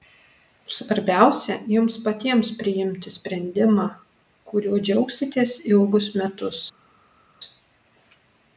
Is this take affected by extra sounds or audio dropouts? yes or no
no